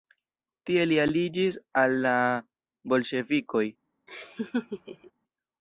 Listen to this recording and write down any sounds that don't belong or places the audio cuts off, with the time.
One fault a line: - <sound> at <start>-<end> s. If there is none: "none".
- laugh at 4.1-5.1 s